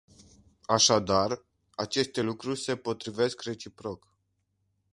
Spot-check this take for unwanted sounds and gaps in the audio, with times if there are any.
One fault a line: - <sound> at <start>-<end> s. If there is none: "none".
none